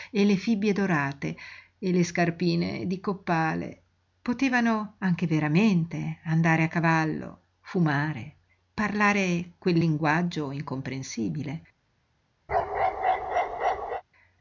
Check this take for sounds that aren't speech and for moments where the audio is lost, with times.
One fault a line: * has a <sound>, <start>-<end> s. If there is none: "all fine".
* has a bark, 12.5-14.0 s